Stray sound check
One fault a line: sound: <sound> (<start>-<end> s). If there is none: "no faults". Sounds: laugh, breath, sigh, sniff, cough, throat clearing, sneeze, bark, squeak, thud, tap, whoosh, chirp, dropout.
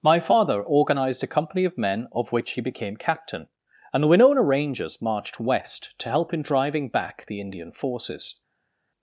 no faults